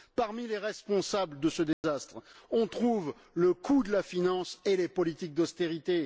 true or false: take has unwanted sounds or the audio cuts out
true